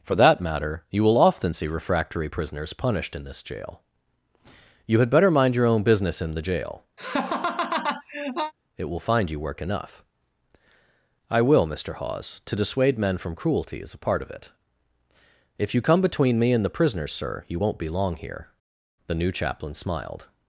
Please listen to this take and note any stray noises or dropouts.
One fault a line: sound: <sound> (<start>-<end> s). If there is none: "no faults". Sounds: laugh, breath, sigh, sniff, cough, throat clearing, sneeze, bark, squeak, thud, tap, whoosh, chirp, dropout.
sound: laugh (7.0-8.5 s)